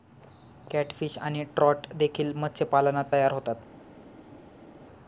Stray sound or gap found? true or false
false